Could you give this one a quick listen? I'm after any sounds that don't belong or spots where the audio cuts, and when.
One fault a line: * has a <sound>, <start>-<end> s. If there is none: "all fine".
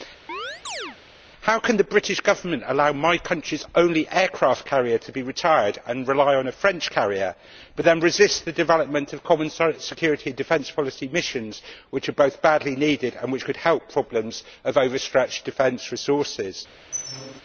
* has a chirp, 0.3-1.0 s
* has a squeak, 16.9-17.4 s